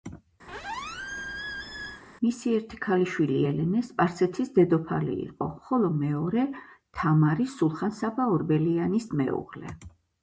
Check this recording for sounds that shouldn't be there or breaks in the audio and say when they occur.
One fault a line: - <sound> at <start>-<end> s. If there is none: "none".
- squeak at 0.5-2.0 s